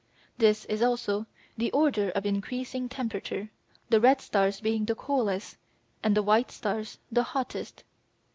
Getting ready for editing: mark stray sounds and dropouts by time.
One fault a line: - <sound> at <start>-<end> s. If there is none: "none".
none